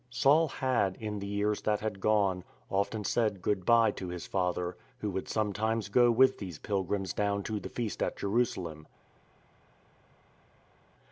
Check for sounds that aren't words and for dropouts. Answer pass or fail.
pass